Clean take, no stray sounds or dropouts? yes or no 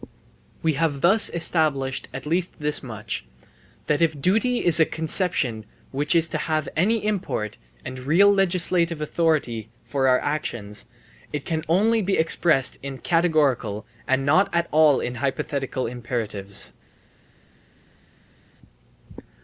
yes